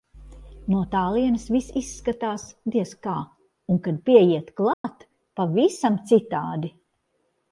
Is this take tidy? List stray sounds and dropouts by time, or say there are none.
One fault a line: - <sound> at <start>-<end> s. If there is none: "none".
- dropout at 4.7-4.8 s